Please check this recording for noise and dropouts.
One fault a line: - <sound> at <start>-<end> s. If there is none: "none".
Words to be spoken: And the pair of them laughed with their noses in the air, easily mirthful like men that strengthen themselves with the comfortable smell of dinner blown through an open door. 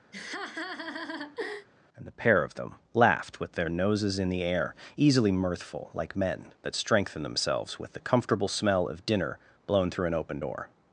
- laugh at 0.1-1.7 s